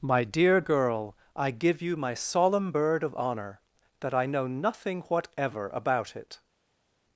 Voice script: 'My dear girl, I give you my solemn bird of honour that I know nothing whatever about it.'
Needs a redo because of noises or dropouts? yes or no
no